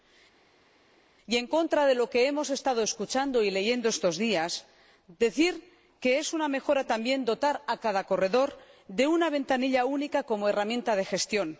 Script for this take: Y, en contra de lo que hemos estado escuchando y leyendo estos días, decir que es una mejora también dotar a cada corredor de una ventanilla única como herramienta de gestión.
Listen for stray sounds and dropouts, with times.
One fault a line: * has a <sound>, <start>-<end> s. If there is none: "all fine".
all fine